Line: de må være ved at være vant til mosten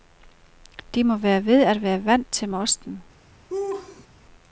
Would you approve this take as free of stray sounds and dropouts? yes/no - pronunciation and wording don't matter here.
no